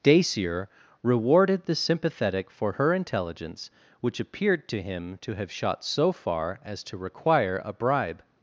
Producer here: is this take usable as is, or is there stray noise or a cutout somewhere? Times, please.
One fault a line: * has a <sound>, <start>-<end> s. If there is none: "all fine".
all fine